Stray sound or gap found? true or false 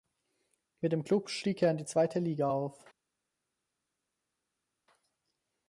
false